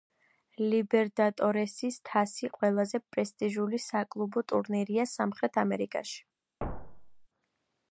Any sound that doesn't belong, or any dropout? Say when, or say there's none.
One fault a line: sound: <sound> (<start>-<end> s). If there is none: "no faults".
sound: thud (6.6-7.3 s)